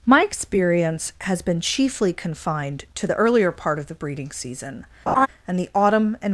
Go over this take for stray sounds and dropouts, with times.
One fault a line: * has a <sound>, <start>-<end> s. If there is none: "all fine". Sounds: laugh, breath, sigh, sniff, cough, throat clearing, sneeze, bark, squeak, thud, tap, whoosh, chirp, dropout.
* has a laugh, 5.1-5.3 s